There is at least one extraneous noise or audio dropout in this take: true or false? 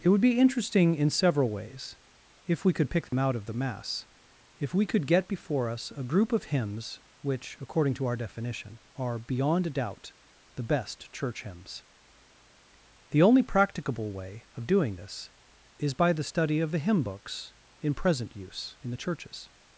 true